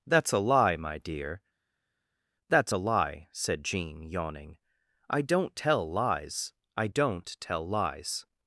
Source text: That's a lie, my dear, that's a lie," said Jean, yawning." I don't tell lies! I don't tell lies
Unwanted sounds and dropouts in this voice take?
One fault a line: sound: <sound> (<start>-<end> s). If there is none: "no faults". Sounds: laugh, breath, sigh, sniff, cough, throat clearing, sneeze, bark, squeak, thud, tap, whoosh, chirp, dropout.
no faults